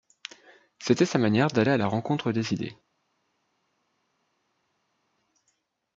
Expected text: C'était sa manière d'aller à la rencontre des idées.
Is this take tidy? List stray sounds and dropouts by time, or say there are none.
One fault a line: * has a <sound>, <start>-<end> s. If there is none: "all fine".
all fine